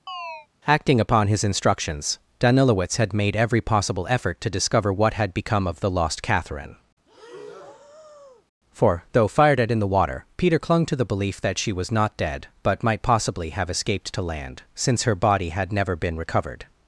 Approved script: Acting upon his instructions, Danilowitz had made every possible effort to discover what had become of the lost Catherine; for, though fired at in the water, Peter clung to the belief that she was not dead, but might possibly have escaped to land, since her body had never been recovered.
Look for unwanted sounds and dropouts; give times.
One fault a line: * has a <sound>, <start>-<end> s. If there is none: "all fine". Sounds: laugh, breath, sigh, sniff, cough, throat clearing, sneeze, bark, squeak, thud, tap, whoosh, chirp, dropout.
* has a chirp, 0.1-0.5 s
* has a breath, 7.1-8.5 s